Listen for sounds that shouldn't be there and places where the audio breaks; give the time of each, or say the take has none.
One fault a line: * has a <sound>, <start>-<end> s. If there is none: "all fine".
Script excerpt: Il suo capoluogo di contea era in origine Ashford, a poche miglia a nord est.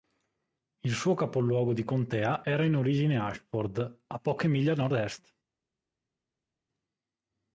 all fine